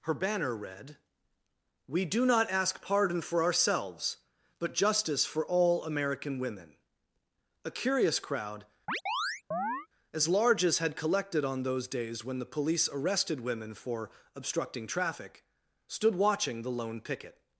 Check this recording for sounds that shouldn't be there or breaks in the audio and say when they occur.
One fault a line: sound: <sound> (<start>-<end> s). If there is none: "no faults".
sound: chirp (8.9-9.9 s)